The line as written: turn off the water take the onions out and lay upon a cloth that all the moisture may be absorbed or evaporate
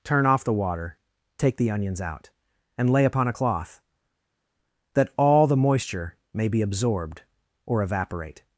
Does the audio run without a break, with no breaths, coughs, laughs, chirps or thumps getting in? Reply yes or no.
yes